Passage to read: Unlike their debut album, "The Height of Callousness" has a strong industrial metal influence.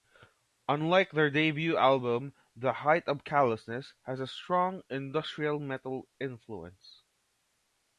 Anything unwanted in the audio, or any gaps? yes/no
no